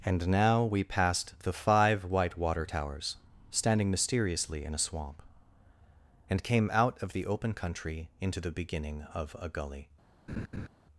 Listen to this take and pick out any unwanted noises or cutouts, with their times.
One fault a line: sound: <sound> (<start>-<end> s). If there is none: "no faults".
sound: laugh (10.3-10.7 s)